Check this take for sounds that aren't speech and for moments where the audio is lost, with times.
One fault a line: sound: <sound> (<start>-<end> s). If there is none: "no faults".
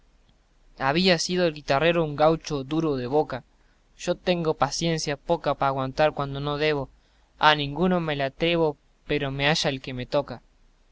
no faults